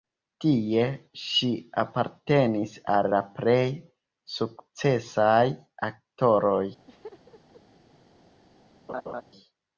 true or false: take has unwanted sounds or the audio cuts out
true